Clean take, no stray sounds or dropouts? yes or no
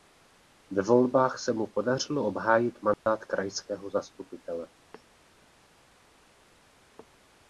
no